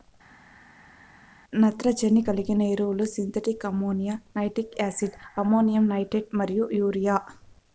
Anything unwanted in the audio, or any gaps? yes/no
no